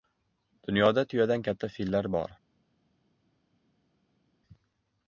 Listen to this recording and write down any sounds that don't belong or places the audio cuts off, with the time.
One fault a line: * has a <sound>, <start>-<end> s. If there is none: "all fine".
all fine